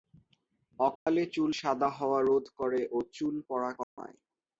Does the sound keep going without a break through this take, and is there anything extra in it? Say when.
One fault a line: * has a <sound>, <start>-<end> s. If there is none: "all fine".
* has a dropout, 1.0-1.1 s
* has a dropout, 3.8-4.0 s